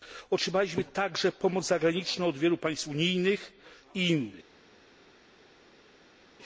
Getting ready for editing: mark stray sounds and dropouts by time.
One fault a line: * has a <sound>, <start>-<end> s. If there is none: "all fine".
all fine